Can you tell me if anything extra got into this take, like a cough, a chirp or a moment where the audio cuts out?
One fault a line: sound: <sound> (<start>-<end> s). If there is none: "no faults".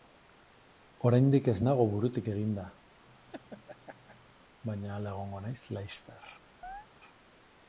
sound: laugh (3.0-4.4 s)
sound: chirp (6.6-6.9 s)